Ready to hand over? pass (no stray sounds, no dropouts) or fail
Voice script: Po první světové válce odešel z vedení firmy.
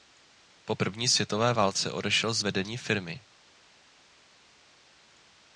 pass